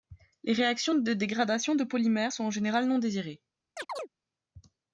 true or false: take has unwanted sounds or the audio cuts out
true